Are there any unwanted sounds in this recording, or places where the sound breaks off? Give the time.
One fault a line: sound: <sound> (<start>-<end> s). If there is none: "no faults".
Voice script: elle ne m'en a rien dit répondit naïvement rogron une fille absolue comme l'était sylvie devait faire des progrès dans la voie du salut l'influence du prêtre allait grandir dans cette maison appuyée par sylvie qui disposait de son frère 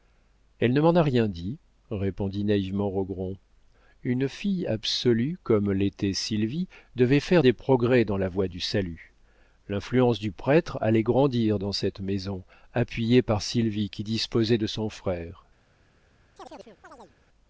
sound: chirp (16.4-17.2 s)